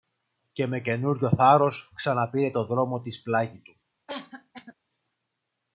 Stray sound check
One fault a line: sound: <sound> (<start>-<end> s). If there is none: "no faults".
sound: cough (4.1-4.7 s)